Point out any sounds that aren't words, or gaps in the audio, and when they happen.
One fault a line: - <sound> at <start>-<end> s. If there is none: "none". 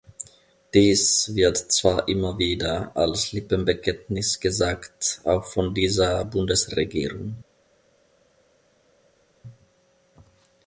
none